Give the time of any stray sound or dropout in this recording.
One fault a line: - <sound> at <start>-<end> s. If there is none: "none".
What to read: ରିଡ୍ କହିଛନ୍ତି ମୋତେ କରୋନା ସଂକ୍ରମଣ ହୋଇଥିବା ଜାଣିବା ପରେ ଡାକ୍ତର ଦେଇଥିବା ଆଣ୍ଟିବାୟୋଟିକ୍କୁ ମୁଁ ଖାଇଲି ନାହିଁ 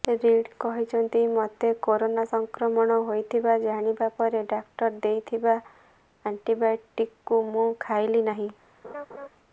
- laugh at 8.8-9.3 s